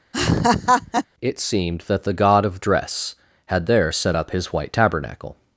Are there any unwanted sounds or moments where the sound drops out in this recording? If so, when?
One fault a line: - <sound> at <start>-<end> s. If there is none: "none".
- laugh at 0.1-1.1 s